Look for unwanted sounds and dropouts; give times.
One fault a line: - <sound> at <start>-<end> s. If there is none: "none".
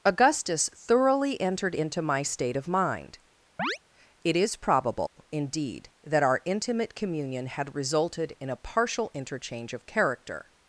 - chirp at 3.6-3.8 s
- dropout at 5.1-5.2 s